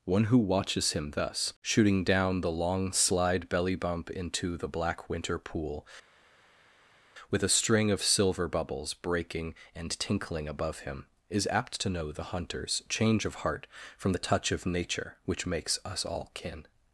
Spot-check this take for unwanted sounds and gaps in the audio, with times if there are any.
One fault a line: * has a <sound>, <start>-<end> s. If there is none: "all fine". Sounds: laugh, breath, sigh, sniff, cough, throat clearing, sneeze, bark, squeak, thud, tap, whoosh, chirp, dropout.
all fine